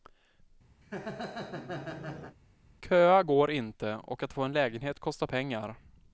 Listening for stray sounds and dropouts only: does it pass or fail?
fail